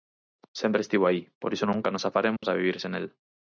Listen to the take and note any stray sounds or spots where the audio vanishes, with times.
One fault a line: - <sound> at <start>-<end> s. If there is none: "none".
- dropout at 2.4-2.4 s